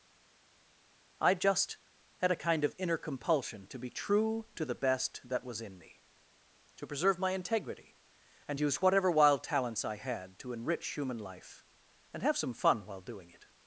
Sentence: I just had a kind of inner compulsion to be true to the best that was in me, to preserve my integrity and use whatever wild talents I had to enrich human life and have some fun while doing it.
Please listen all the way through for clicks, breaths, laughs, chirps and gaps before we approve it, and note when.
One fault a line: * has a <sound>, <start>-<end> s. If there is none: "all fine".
all fine